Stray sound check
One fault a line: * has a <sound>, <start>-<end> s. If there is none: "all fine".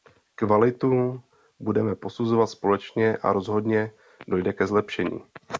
all fine